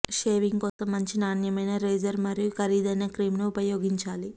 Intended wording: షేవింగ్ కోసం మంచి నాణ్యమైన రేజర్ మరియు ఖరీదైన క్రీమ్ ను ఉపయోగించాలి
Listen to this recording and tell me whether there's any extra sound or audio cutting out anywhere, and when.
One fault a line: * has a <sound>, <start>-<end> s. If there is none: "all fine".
* has a dropout, 0.7-0.8 s